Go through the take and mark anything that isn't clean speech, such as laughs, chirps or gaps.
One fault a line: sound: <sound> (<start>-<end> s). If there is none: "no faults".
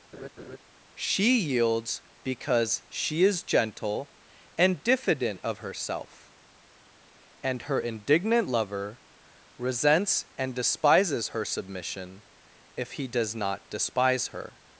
sound: laugh (0.1-0.6 s)